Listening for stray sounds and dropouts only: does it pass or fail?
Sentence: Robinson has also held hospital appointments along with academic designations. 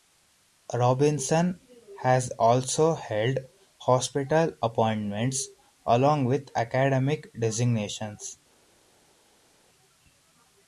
pass